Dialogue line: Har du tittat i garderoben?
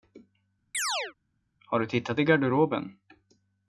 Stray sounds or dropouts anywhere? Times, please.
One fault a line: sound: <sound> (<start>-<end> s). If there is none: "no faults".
sound: chirp (0.7-1.1 s)